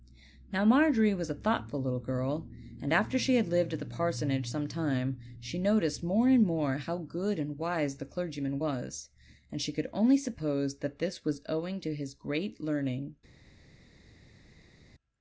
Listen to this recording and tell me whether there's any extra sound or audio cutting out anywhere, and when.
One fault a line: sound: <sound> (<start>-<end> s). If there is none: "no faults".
no faults